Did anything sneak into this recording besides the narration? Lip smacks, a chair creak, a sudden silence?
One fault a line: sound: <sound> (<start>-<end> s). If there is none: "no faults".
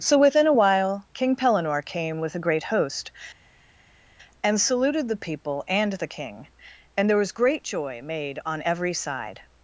no faults